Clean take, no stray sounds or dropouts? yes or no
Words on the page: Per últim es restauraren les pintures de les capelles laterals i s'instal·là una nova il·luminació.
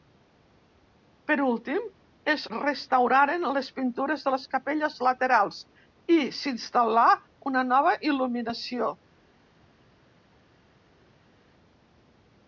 yes